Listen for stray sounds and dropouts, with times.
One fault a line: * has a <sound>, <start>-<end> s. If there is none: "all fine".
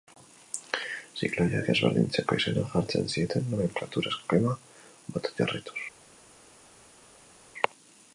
all fine